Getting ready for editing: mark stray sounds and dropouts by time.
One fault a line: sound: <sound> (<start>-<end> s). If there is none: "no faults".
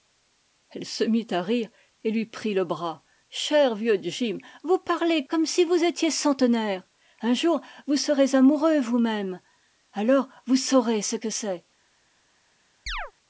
sound: chirp (12.9-13.1 s)